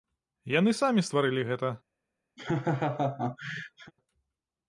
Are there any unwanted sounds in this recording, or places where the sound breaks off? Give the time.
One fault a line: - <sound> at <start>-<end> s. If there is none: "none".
- laugh at 2.4-3.9 s